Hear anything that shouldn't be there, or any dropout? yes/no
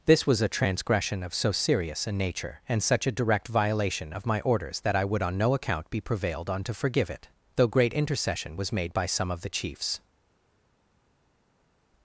no